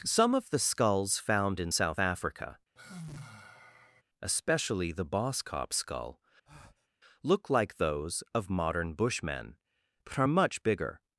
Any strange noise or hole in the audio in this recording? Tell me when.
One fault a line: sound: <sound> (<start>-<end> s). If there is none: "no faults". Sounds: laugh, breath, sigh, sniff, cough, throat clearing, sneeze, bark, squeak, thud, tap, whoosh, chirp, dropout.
sound: sigh (2.8-4.0 s)
sound: breath (6.5-6.9 s)